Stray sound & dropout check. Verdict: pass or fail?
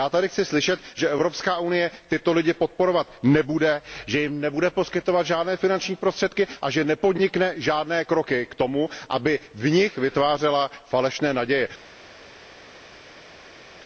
pass